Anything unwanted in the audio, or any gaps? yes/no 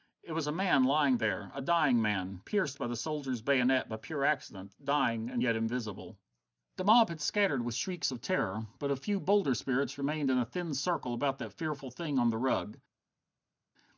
no